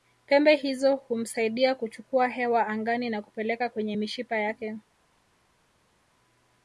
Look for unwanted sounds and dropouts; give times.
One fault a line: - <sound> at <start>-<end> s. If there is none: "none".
none